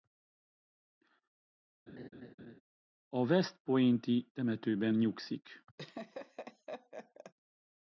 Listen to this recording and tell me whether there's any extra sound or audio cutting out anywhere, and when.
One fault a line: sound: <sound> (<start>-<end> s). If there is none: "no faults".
sound: laugh (1.9-2.6 s)
sound: laugh (5.8-7.3 s)